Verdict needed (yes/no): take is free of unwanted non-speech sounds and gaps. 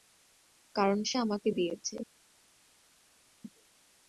yes